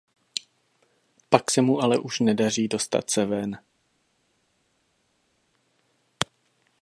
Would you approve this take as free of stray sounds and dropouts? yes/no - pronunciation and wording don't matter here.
yes